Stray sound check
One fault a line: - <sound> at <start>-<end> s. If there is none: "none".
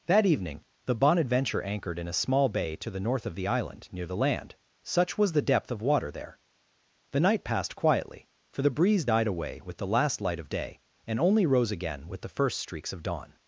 none